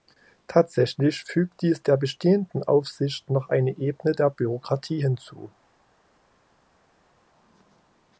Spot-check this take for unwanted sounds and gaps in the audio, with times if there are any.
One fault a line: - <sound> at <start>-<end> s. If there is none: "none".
none